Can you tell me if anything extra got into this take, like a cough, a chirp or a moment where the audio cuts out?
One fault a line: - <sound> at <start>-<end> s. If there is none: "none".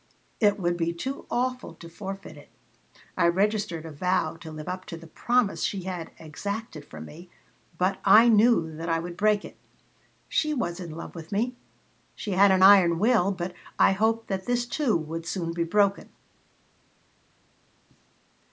none